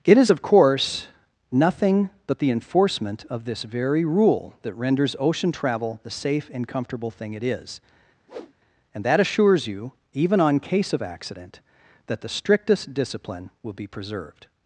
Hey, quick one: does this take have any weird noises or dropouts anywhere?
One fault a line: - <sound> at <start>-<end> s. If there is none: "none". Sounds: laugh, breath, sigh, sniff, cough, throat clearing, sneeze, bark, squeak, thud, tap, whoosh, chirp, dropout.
- whoosh at 8.3-8.5 s